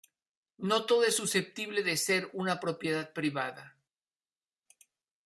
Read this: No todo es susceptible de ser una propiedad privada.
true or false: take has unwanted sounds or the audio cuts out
false